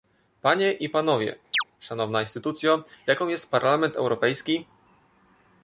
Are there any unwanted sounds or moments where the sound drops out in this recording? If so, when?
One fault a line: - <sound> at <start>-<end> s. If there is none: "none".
- chirp at 1.5-1.6 s